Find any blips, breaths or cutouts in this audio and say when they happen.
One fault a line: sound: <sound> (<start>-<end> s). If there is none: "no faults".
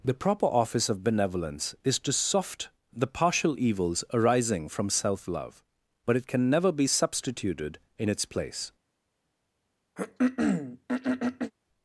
sound: throat clearing (10.0-11.5 s)